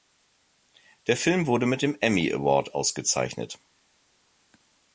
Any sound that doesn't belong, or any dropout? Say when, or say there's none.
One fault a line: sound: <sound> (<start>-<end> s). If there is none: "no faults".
no faults